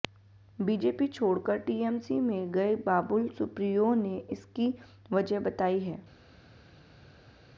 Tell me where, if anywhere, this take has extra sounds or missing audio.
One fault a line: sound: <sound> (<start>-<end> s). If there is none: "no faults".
no faults